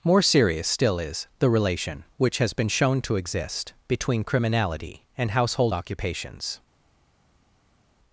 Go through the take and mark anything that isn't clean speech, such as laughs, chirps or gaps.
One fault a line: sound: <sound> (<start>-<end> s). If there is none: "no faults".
no faults